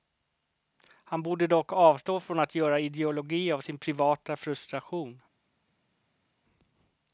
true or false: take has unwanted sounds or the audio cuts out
false